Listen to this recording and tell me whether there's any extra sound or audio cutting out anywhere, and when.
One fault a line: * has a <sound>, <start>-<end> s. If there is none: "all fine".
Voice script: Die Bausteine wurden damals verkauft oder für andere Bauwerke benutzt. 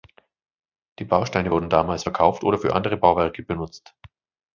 all fine